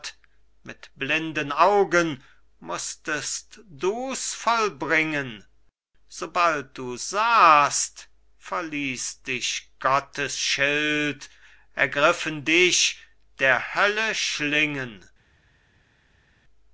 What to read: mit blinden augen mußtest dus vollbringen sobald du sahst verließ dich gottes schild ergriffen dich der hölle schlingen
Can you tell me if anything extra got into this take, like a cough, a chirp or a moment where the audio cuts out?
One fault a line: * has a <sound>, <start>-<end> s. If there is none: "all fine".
all fine